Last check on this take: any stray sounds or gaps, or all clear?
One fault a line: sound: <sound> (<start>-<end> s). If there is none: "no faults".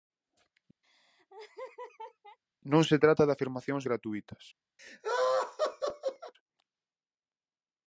sound: laugh (0.8-2.4 s)
sound: laugh (4.8-6.3 s)